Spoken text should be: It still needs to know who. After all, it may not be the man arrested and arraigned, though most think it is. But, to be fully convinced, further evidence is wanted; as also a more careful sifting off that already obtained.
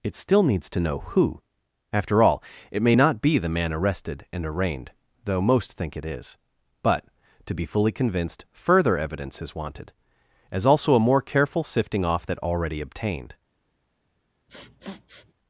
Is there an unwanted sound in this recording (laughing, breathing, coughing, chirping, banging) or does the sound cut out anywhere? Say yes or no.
yes